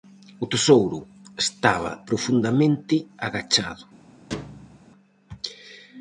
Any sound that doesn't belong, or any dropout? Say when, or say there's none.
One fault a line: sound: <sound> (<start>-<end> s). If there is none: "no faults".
sound: thud (4.3-4.9 s)